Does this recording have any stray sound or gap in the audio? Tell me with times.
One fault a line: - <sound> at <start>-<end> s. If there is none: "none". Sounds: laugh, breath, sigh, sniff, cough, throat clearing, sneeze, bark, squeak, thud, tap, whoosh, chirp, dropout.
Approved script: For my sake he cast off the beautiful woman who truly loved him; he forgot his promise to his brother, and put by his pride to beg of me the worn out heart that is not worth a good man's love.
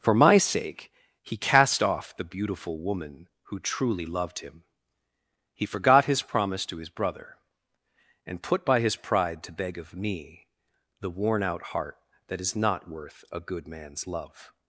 none